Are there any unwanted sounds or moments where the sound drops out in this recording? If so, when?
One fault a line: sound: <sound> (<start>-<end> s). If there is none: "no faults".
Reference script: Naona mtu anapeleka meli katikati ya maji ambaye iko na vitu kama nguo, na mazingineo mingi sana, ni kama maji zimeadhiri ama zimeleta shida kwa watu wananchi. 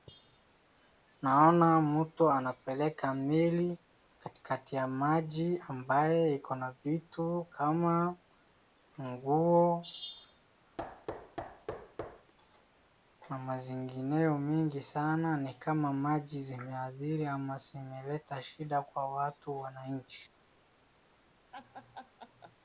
sound: thud (10.8-12.3 s)
sound: laugh (21.5-22.5 s)